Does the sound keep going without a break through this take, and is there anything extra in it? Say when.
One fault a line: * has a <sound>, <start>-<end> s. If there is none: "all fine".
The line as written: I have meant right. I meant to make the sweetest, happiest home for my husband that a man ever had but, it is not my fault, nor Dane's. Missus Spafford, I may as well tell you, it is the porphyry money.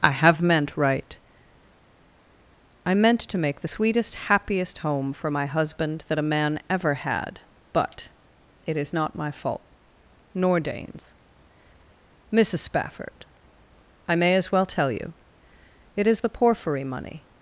all fine